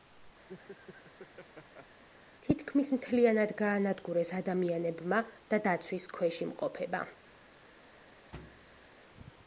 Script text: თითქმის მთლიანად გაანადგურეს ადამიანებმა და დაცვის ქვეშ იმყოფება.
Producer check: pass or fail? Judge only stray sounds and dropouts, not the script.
fail